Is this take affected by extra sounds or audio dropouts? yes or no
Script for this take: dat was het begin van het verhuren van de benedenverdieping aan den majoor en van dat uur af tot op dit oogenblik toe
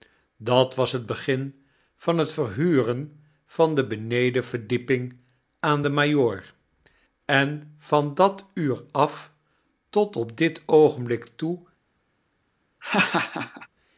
yes